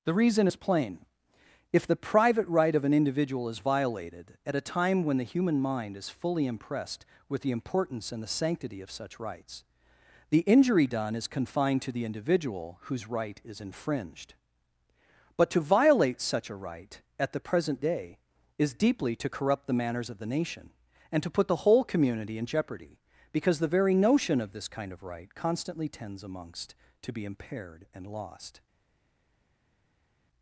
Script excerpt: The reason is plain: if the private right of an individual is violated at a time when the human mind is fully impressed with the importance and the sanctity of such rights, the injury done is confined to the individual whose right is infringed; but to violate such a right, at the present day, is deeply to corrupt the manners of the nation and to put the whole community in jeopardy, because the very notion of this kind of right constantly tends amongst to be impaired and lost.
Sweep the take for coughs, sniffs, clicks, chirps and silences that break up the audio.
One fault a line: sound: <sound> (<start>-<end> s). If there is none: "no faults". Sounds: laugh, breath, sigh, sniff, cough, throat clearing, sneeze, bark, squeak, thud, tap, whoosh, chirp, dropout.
no faults